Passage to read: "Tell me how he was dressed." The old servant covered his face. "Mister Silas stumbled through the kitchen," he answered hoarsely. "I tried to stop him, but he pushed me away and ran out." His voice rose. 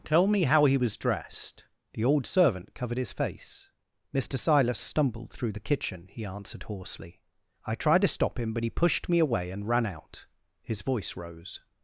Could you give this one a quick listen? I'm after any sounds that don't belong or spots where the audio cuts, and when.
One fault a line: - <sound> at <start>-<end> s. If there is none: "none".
none